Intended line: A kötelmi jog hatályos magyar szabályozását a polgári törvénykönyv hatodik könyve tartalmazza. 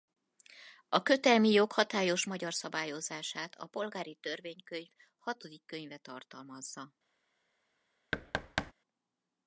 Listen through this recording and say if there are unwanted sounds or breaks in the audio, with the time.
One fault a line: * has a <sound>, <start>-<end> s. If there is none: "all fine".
* has a thud, 8.1-8.7 s